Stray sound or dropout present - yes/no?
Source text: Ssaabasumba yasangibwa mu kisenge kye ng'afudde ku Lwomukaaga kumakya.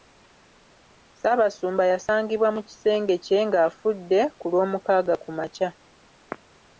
no